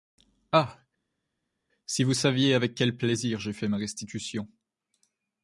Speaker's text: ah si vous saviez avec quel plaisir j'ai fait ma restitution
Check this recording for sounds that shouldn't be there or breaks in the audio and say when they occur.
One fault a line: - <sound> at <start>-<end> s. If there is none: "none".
none